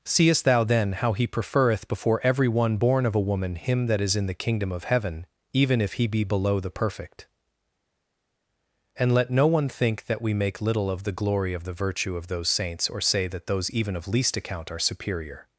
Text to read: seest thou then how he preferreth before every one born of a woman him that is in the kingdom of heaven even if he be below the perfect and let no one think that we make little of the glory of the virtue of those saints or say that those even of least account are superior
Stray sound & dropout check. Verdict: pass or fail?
pass